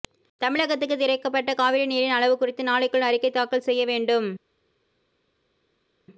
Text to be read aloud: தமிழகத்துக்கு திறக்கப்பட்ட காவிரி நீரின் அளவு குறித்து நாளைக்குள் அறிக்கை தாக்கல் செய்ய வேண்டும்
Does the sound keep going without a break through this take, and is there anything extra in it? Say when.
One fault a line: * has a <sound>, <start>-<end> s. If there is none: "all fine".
all fine